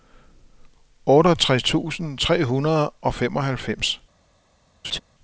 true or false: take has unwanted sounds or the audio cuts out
true